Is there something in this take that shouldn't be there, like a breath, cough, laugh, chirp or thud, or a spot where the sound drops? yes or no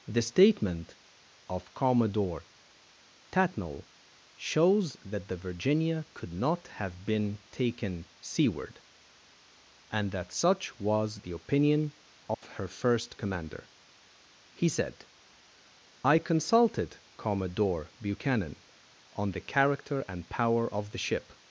yes